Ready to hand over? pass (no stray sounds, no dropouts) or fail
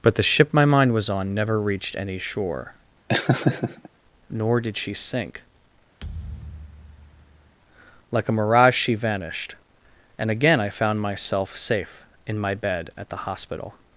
fail